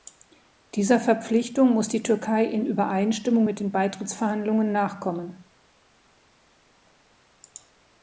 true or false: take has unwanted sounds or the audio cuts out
false